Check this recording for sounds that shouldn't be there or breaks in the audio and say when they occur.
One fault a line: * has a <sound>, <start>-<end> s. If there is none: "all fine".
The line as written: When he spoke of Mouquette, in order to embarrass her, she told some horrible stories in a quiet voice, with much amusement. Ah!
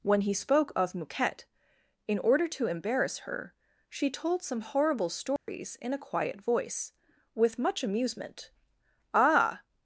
* has a dropout, 5.4-5.5 s